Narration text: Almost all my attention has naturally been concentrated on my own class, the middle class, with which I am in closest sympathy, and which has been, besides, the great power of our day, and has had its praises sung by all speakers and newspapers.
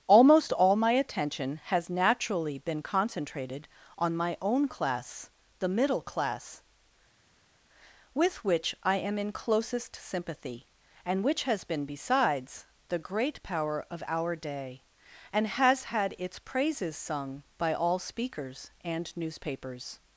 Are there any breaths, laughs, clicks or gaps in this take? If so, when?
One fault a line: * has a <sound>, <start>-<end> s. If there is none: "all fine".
all fine